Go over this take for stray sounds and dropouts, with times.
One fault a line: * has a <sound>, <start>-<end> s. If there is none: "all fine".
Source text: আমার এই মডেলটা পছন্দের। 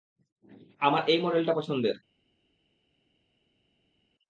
all fine